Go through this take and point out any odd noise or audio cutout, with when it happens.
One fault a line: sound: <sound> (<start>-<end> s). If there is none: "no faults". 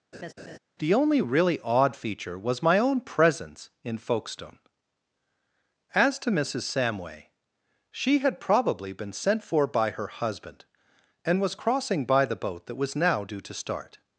sound: laugh (0.1-0.6 s)